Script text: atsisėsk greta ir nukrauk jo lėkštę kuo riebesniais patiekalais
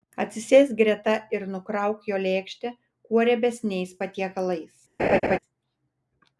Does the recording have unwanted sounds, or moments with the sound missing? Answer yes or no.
yes